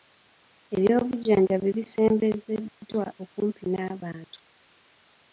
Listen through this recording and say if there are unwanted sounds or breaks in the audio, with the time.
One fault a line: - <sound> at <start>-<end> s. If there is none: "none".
none